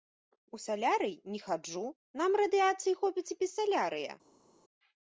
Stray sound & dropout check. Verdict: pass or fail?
pass